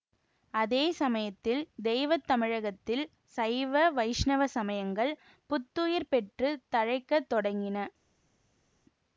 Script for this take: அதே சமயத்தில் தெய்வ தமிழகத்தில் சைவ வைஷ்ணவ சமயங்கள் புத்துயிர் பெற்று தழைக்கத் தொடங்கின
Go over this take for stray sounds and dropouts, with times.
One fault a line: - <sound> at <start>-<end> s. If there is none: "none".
none